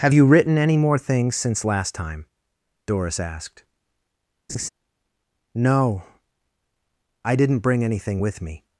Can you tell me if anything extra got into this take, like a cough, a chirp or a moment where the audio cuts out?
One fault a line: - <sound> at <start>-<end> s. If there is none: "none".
- laugh at 4.5-4.7 s